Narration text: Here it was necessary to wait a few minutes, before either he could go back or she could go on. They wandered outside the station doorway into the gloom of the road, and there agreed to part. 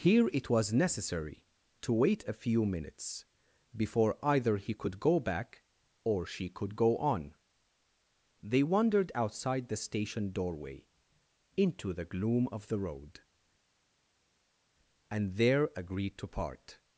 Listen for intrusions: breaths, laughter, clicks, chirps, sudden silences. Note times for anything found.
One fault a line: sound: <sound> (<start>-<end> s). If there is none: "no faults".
no faults